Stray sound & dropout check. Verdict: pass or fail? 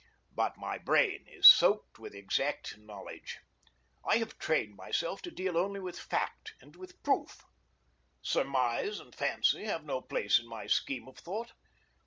pass